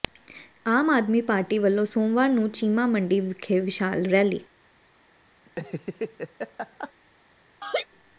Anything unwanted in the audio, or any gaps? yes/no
yes